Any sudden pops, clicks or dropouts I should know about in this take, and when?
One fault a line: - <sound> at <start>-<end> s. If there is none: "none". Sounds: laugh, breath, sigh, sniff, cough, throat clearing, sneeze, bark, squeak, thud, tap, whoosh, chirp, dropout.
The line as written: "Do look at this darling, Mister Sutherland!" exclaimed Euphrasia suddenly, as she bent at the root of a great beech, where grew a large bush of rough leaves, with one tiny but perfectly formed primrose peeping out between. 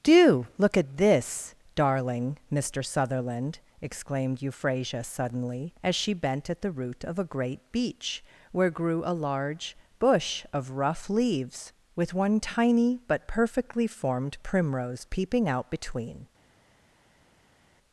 none